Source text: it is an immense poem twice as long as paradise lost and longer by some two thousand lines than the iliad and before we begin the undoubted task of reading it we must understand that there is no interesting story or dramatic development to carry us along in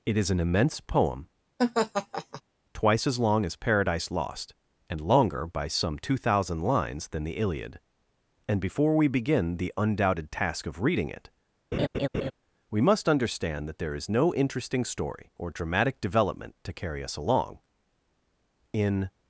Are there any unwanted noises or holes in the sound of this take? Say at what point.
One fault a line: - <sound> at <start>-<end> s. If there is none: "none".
- laugh at 1.6-2.4 s
- laugh at 11.7-12.3 s